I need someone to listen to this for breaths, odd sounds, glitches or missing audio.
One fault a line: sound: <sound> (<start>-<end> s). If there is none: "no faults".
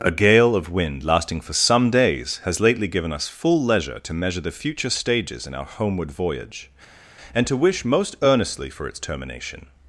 no faults